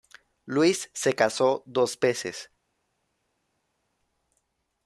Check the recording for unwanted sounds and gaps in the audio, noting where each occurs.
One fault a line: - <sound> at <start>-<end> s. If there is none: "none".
none